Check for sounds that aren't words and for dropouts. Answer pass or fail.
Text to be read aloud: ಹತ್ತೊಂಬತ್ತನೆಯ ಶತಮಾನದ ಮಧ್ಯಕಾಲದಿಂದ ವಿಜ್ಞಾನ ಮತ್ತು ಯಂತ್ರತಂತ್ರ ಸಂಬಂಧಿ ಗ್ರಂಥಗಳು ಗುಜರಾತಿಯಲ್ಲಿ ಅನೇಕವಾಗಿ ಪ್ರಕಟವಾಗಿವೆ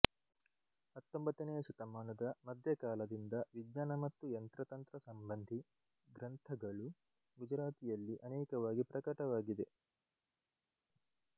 pass